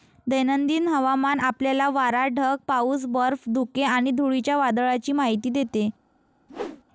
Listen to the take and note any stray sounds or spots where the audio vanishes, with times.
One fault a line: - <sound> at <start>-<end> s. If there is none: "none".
- whoosh at 6.5-6.8 s